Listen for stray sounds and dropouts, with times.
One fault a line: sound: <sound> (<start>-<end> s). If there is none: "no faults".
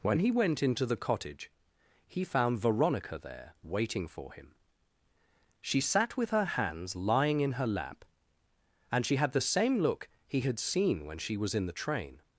no faults